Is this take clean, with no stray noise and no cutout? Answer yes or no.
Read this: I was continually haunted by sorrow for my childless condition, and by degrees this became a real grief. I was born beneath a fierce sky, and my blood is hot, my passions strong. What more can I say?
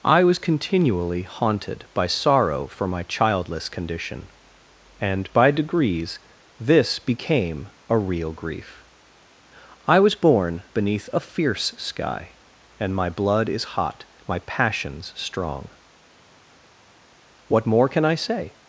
yes